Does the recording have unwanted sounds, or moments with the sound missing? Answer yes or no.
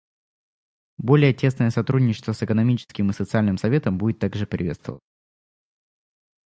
no